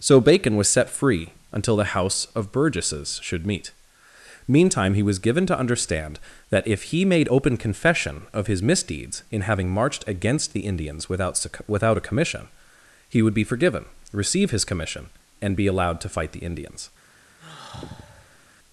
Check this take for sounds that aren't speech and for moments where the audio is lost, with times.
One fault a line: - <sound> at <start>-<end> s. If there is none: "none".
- sigh at 17.4-18.5 s